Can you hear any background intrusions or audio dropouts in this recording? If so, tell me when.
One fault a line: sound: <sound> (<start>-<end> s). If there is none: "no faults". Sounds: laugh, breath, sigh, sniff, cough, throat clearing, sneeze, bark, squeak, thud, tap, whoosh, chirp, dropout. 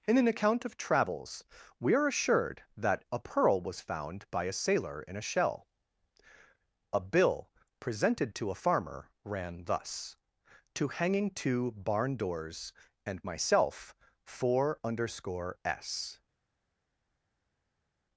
no faults